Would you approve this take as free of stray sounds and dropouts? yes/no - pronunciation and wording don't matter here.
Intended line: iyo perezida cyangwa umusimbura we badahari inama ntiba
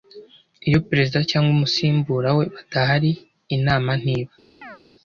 no